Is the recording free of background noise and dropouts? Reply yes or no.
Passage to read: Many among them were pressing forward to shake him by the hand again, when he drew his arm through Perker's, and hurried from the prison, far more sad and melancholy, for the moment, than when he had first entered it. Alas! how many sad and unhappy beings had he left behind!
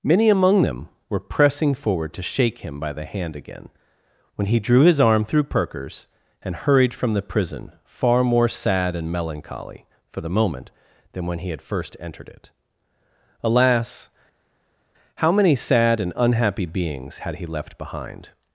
yes